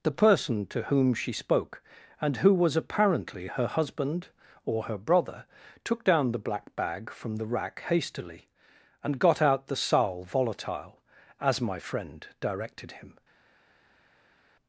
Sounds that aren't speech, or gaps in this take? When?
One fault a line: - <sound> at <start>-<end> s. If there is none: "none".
none